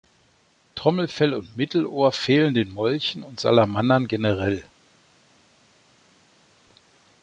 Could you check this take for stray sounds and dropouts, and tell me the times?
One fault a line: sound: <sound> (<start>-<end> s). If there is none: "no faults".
no faults